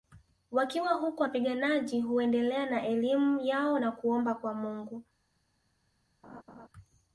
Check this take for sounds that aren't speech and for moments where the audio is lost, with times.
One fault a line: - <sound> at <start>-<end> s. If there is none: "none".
- laugh at 6.2-6.7 s